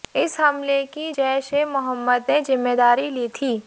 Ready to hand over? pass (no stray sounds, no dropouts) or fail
pass